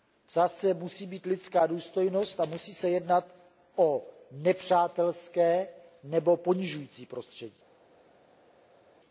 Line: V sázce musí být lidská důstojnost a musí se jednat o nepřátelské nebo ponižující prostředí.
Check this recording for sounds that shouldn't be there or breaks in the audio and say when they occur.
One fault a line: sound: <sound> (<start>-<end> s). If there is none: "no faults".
no faults